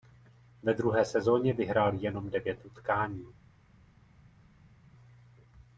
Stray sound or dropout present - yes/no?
no